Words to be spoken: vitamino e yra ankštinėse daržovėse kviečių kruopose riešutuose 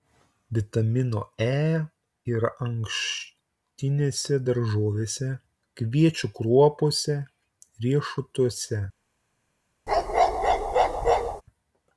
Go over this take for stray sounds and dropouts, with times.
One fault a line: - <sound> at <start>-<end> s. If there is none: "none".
- bark at 9.9-11.4 s